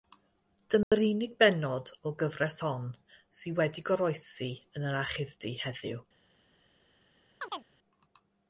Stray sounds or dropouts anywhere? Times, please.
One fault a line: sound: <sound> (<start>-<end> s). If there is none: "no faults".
sound: dropout (0.8-0.9 s)
sound: chirp (7.4-7.7 s)